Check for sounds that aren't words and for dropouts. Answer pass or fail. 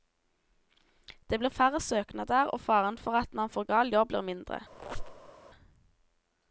fail